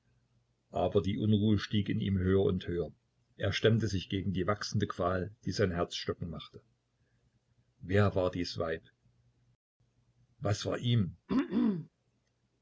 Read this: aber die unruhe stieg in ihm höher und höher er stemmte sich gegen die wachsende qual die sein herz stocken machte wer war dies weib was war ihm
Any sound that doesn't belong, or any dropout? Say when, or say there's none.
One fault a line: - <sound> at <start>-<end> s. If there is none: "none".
- throat clearing at 11.3-11.9 s